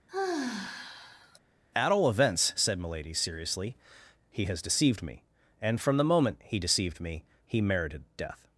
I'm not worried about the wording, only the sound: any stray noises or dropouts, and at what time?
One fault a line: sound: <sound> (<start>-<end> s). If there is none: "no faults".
sound: sigh (0.1-1.4 s)